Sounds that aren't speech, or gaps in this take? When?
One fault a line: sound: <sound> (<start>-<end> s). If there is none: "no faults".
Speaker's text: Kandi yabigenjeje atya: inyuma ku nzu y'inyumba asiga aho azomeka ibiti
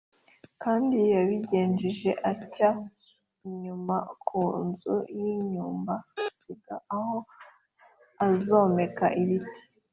no faults